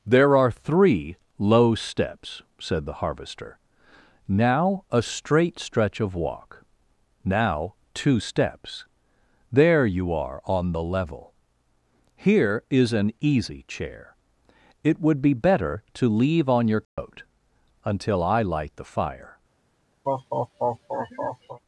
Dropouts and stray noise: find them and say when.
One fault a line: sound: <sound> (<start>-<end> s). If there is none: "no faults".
sound: dropout (16.8-17.0 s)
sound: laugh (20.0-21.6 s)